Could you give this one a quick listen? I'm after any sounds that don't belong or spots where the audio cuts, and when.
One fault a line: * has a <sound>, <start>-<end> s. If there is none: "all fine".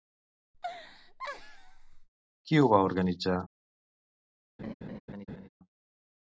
* has a laugh, 0.5-2.1 s
* has a laugh, 4.6-5.5 s